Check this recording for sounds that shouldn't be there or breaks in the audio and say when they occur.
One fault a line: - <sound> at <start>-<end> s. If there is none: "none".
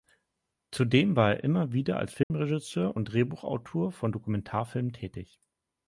- dropout at 2.2-2.3 s